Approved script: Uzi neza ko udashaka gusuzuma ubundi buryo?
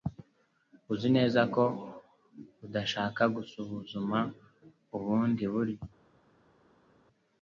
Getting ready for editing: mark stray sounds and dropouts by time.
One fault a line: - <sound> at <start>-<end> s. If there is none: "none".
none